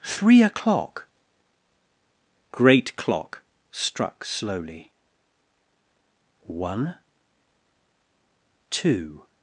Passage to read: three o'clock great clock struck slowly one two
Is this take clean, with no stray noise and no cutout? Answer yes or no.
yes